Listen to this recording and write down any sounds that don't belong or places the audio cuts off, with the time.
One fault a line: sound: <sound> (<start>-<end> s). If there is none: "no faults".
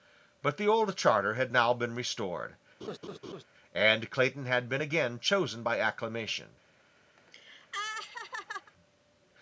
sound: laugh (2.8-3.4 s)
sound: laugh (7.2-8.7 s)